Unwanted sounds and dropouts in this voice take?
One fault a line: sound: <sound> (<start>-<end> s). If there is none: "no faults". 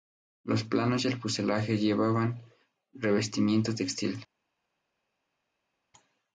no faults